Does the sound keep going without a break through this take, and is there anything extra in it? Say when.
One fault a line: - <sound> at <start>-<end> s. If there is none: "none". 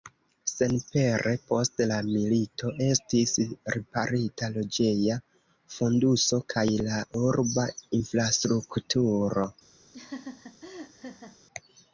- laugh at 9.9-11.4 s